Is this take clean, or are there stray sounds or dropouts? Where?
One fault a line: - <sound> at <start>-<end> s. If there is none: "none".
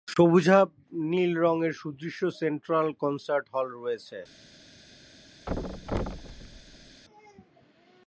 - thud at 5.5-7.0 s